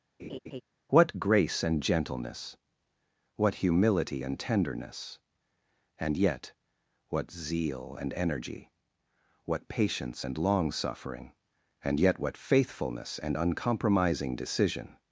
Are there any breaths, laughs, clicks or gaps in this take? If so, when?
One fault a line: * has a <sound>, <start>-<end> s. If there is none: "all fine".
* has a laugh, 0.2-0.6 s